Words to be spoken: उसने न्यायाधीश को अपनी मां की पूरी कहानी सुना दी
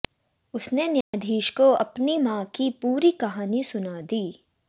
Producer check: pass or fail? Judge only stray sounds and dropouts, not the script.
fail